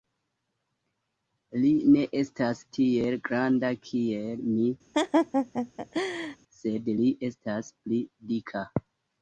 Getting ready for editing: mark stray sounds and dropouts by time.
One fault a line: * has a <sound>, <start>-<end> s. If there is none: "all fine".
* has a laugh, 4.9-6.4 s